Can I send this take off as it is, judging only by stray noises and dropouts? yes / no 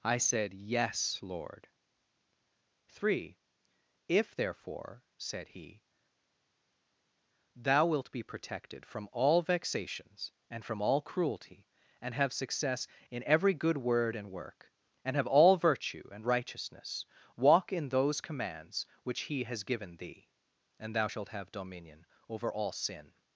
yes